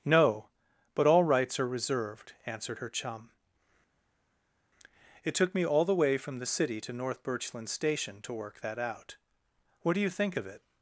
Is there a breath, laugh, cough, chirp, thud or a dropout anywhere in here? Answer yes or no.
no